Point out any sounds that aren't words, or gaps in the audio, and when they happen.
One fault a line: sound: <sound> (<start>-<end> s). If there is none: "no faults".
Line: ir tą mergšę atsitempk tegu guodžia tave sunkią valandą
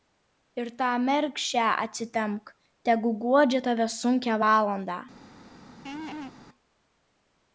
sound: laugh (5.9-6.3 s)